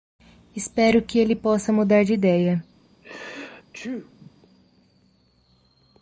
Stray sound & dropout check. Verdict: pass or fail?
fail